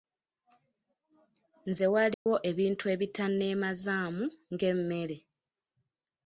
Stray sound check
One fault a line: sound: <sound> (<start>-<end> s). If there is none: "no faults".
sound: dropout (2.1-2.3 s)